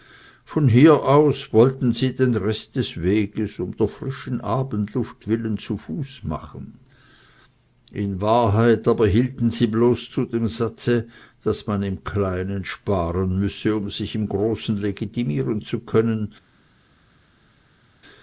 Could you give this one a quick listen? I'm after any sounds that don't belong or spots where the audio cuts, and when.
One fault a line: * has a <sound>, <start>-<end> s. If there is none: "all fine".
all fine